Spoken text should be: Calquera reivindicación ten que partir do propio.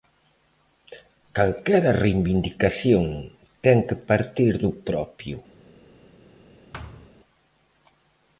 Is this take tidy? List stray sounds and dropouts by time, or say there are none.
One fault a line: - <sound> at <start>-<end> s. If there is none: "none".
- thud at 6.7-7.1 s